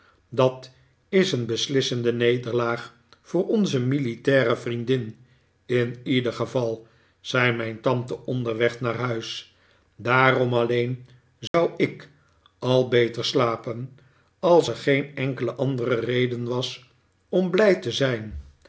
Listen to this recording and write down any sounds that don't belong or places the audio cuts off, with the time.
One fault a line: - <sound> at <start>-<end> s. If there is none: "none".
- dropout at 11.5-11.5 s